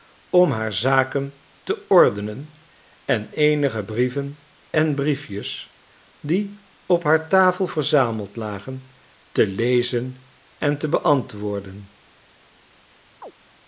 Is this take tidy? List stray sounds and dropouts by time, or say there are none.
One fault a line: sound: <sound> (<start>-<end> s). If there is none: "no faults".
sound: chirp (13.2-13.3 s)